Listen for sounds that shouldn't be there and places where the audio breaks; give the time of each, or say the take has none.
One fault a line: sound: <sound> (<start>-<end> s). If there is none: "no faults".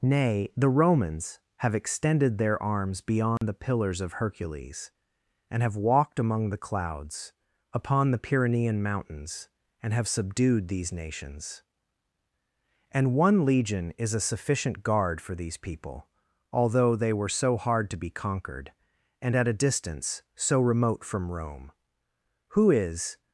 sound: dropout (3.4-3.4 s)